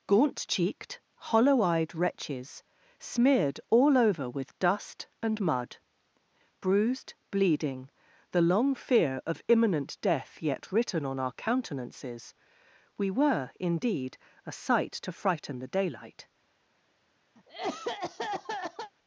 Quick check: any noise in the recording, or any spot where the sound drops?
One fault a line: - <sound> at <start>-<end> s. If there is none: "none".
- cough at 17.4-18.9 s